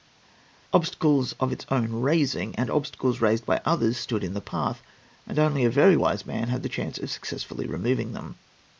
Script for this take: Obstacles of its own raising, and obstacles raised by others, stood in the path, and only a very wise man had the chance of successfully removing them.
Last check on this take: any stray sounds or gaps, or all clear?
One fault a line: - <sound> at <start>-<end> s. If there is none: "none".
none